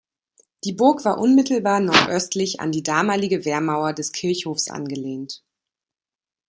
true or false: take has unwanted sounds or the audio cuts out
false